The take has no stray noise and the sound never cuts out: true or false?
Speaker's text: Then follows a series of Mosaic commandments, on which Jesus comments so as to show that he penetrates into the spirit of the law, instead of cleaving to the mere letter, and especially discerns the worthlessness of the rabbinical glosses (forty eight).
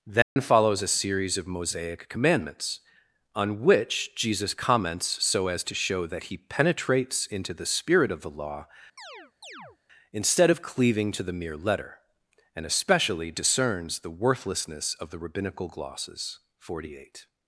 false